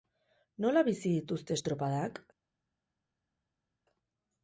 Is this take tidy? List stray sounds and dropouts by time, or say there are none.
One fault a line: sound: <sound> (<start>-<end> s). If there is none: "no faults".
no faults